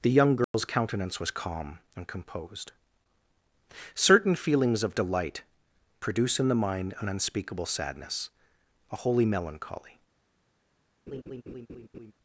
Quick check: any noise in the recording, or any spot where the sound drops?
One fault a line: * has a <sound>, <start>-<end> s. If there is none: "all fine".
* has a dropout, 0.4-0.5 s
* has a laugh, 11.1-12.1 s